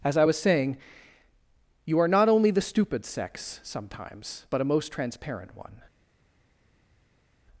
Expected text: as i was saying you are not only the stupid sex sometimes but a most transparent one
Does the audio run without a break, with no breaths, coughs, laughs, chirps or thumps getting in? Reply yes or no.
yes